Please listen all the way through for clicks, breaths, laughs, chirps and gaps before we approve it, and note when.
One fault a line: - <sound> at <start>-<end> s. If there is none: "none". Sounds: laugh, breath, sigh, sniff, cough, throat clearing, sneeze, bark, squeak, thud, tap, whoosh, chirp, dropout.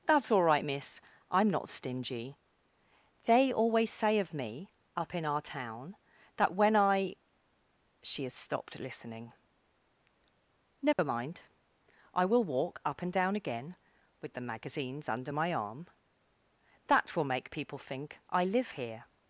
- dropout at 10.9-11.0 s